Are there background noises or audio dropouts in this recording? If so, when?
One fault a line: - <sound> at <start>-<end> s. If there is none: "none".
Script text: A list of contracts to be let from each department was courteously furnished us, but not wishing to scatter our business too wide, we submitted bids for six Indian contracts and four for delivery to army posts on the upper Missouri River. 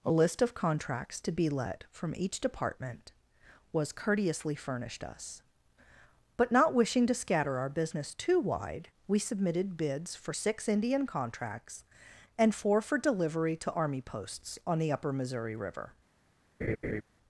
- laugh at 16.6-17.0 s